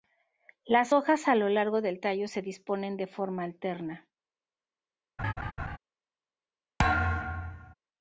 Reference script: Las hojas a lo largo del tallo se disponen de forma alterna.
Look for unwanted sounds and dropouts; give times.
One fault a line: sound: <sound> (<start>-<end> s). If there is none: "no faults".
sound: laugh (5.2-5.8 s)
sound: thud (6.8-7.7 s)